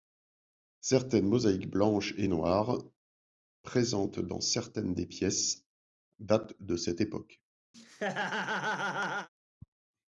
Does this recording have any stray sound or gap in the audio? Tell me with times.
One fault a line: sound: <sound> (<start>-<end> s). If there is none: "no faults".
sound: laugh (7.7-9.3 s)